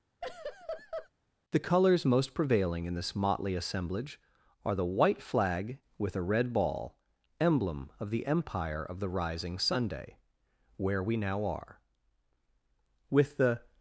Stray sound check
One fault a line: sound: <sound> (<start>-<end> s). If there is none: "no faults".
sound: laugh (0.2-1.1 s)